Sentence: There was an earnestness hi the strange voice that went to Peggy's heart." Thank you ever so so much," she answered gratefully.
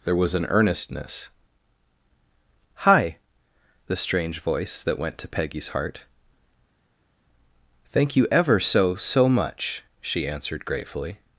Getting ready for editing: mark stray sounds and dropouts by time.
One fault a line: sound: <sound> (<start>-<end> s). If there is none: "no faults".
no faults